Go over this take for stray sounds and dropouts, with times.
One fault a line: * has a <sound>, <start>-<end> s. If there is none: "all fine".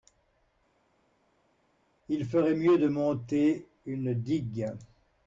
all fine